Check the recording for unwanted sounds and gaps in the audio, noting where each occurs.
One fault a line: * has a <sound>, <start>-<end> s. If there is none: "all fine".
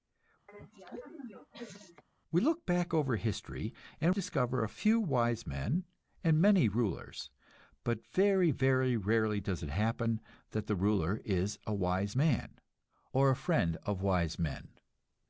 * has a cough, 0.5-2.0 s